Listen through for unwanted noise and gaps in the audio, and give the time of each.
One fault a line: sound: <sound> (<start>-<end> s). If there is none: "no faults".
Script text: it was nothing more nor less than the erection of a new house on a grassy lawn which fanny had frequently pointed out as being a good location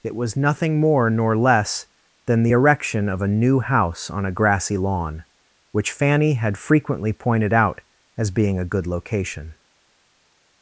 no faults